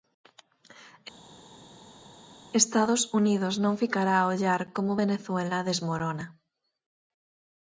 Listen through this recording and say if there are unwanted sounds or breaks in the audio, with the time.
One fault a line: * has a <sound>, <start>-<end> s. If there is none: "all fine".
all fine